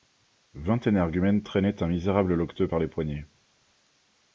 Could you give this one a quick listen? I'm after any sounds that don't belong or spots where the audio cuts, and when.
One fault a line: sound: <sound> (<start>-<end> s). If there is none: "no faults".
no faults